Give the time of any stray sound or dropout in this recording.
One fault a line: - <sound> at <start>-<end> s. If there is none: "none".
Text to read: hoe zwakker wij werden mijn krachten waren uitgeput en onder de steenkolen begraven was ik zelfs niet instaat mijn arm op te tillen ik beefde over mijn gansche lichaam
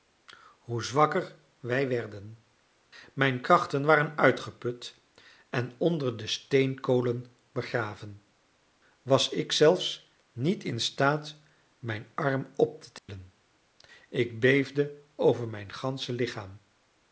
- dropout at 13.0-13.1 s